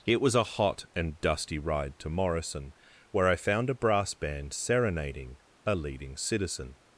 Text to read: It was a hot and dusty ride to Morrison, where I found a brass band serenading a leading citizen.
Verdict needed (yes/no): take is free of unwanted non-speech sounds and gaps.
yes